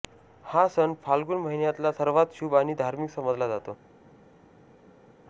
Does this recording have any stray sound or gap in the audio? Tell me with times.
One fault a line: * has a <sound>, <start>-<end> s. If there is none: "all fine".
all fine